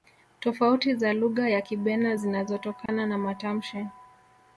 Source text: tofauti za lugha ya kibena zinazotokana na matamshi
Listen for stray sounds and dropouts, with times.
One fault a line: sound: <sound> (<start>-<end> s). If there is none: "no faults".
sound: dropout (2.9-2.9 s)